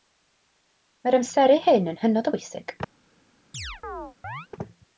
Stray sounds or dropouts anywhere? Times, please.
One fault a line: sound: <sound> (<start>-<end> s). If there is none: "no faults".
sound: chirp (3.5-4.5 s)